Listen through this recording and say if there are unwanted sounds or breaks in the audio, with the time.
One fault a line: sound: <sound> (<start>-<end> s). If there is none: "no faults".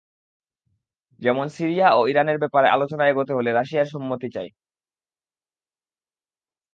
no faults